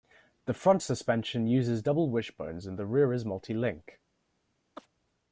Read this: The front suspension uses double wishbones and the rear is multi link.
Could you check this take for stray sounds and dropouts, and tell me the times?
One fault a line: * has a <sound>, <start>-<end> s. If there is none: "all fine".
* has a chirp, 4.7-4.9 s